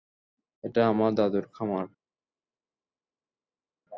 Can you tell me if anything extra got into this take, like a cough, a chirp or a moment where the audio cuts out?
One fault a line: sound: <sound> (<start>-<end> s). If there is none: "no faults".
no faults